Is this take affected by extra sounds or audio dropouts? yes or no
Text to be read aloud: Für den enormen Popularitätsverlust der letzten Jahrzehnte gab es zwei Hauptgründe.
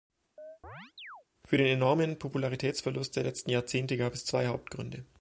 yes